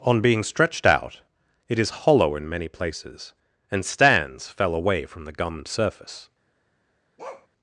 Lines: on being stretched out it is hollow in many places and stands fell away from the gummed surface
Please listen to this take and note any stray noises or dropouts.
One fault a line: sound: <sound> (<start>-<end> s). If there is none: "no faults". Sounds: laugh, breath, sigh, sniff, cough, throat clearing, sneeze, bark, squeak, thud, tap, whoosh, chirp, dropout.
sound: bark (7.2-7.5 s)